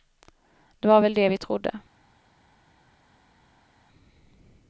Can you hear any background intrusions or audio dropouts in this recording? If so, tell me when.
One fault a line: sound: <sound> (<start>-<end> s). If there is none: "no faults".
no faults